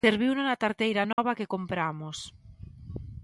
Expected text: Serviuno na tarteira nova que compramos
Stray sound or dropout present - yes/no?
yes